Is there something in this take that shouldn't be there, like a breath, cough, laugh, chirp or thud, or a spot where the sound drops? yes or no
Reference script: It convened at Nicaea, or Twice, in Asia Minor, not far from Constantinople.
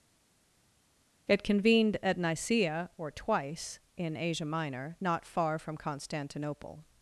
no